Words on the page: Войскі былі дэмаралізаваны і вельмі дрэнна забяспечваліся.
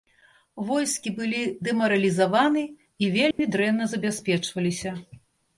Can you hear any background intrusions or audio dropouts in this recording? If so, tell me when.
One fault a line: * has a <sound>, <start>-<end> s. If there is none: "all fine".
* has a dropout, 3.3-3.4 s